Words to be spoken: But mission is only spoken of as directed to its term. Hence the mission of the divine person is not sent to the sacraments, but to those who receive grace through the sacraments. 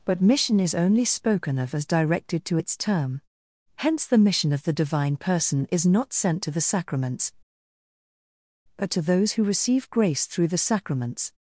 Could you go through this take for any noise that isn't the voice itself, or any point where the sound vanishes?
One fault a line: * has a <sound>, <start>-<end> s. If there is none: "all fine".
all fine